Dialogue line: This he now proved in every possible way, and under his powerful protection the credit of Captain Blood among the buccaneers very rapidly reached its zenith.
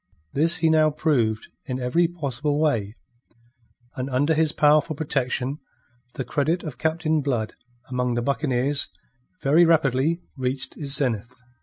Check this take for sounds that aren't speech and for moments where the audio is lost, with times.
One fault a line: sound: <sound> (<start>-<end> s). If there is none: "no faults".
no faults